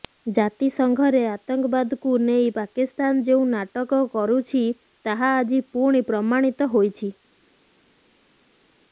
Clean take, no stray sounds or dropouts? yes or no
yes